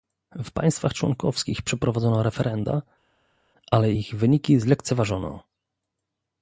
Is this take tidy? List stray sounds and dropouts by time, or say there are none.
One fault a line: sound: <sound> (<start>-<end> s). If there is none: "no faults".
no faults